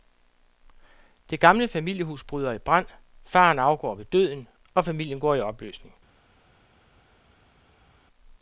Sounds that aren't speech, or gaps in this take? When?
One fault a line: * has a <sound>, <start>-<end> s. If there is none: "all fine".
all fine